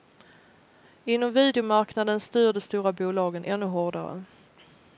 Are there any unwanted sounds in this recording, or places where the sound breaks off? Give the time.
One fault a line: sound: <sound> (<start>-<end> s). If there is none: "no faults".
no faults